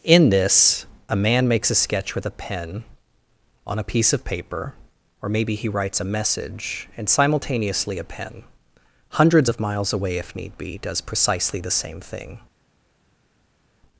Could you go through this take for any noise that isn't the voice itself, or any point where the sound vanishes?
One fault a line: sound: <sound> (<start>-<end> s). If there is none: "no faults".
no faults